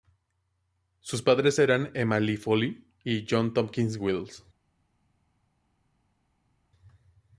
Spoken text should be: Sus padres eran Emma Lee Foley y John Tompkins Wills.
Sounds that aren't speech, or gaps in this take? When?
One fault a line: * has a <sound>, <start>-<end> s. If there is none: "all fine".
all fine